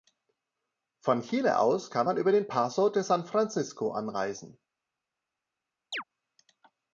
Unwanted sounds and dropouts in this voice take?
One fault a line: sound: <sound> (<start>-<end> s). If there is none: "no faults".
sound: chirp (5.9-6.0 s)